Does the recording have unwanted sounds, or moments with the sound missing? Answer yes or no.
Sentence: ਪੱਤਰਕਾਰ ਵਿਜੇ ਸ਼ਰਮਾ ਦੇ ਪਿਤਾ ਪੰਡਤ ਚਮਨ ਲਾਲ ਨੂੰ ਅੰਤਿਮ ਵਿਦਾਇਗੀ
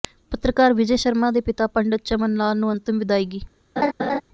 yes